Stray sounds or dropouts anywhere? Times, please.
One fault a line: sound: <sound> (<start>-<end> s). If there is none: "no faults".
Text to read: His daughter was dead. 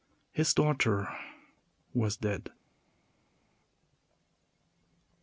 no faults